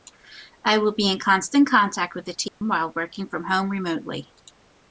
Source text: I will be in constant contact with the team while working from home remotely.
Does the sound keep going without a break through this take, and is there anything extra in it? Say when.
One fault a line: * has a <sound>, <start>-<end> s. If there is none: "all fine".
* has a dropout, 2.5-2.6 s